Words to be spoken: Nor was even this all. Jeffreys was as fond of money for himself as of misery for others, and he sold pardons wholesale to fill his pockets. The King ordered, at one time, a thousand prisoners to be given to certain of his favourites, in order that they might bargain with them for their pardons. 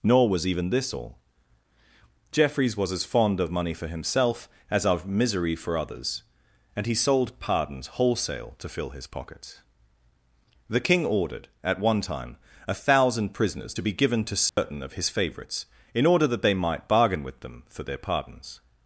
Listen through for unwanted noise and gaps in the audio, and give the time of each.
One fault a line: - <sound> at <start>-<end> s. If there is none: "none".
- dropout at 14.5-14.6 s